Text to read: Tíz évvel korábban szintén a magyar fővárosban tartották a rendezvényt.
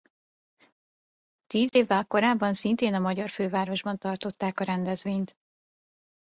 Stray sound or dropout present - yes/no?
no